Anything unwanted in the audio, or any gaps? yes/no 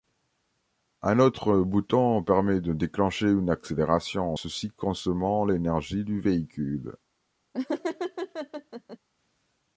yes